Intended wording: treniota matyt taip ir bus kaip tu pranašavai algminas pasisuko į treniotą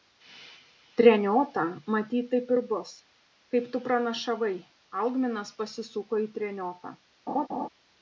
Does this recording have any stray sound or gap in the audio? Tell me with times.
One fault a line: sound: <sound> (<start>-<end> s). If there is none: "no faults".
sound: laugh (7.3-7.7 s)